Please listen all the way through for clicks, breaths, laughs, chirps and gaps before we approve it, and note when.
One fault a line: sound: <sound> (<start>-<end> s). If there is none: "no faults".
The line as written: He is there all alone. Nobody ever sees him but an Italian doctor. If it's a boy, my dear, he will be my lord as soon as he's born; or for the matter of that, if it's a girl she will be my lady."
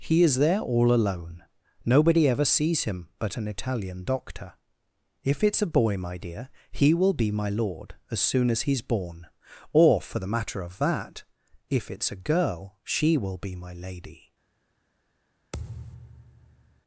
sound: thud (15.5-16.8 s)